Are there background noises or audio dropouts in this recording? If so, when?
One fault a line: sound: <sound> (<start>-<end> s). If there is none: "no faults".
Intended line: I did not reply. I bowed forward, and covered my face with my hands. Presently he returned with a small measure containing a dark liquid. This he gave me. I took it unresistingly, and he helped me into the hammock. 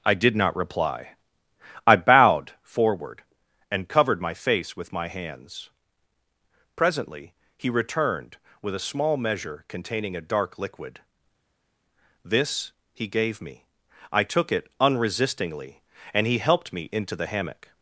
no faults